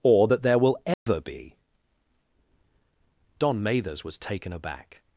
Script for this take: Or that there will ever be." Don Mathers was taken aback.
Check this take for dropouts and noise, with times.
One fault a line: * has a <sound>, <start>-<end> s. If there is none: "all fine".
* has a dropout, 0.9-1.1 s